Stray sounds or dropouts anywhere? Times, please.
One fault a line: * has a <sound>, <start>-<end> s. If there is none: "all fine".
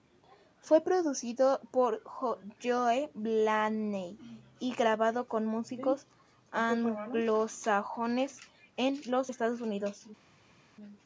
all fine